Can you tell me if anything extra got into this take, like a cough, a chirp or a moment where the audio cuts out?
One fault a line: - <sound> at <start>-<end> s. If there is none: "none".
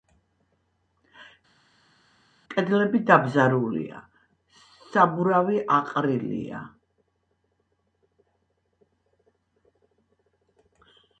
none